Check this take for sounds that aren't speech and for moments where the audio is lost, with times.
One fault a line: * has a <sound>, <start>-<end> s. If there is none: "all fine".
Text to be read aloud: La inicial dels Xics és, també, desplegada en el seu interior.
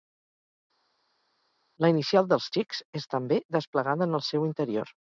all fine